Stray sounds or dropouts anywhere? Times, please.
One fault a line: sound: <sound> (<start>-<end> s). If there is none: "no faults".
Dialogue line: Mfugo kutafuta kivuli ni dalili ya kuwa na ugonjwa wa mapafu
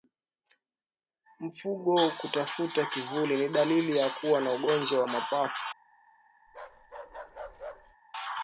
sound: bark (6.5-8.0 s)